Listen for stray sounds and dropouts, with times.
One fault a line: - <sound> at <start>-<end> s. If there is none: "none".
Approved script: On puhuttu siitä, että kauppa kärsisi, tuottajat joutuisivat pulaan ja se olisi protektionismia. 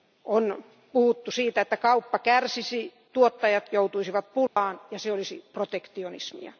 - dropout at 4.5-4.6 s